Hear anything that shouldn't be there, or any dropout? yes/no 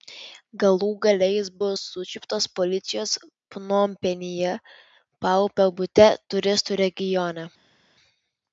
no